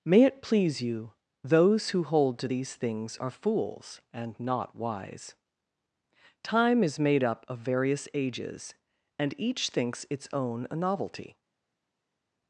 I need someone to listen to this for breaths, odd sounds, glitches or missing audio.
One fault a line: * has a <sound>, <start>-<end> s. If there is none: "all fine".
all fine